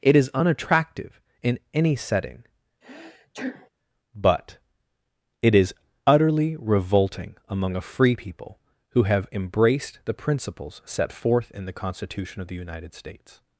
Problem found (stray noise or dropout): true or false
true